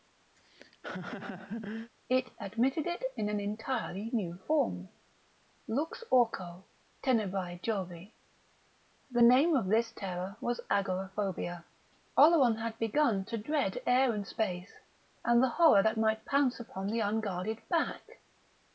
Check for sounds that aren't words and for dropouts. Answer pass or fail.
fail